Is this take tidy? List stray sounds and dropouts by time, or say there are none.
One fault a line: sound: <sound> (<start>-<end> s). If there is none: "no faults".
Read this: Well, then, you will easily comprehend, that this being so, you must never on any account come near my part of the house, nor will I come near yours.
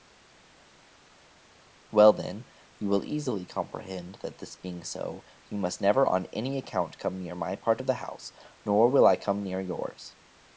no faults